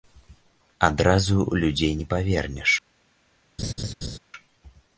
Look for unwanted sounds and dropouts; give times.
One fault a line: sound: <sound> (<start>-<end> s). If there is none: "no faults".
sound: laugh (3.6-4.2 s)